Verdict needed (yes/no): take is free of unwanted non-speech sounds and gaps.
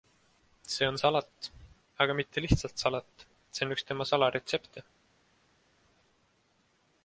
yes